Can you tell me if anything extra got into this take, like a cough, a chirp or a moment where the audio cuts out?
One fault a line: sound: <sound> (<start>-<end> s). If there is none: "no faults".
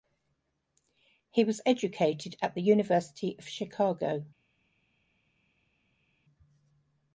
no faults